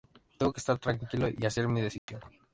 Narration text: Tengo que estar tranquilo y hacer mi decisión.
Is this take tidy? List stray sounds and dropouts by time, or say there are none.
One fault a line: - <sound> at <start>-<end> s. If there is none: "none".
- dropout at 2.0-2.1 s